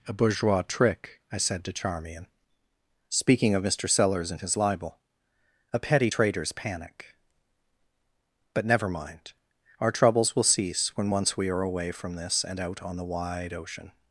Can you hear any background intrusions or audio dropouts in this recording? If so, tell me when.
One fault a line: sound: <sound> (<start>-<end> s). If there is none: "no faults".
no faults